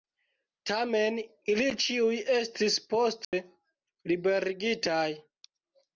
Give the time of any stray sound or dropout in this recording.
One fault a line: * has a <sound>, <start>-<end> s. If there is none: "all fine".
* has a dropout, 3.2-3.3 s